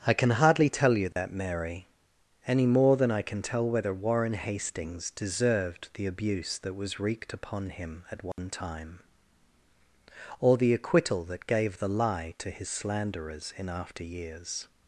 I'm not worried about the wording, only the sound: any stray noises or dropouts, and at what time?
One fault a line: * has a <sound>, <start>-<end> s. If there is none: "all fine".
* has a dropout, 1.1-1.2 s
* has a dropout, 8.3-8.4 s